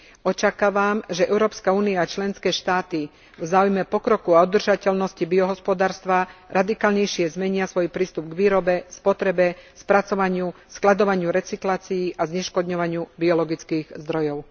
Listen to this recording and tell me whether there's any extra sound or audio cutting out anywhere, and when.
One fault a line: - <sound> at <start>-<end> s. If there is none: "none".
none